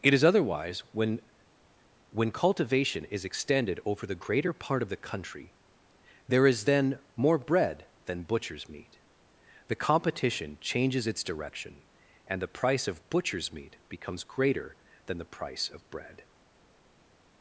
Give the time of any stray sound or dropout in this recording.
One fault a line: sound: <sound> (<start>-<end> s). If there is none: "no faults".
no faults